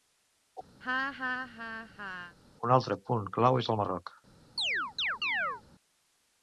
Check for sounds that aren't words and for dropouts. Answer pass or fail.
fail